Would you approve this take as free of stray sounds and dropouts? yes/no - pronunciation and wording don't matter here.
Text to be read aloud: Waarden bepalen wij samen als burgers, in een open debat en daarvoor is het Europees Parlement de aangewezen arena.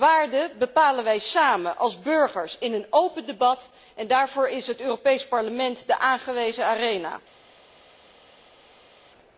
yes